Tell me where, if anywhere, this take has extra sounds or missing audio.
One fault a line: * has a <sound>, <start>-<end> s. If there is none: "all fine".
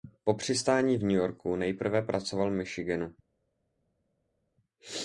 all fine